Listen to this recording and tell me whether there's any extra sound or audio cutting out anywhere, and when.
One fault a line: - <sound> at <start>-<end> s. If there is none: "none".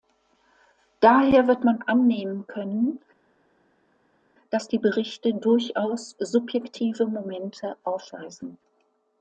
none